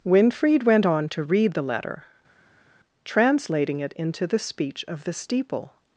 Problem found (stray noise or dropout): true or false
false